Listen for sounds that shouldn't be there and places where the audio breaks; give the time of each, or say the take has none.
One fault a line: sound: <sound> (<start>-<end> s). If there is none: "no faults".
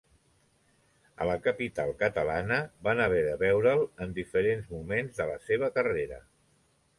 no faults